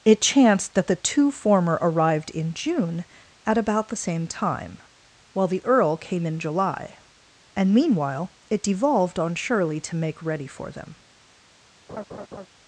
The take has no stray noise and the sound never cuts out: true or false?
false